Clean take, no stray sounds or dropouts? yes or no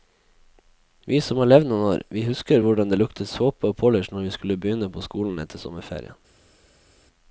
yes